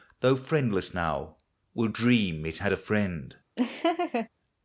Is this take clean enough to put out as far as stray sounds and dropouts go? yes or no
no